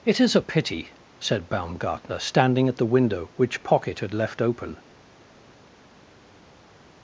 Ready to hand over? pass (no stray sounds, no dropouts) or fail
pass